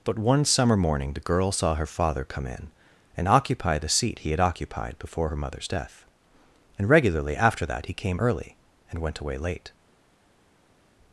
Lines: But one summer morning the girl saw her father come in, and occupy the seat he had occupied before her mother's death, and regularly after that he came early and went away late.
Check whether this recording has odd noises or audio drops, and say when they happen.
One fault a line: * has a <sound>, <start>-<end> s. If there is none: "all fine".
all fine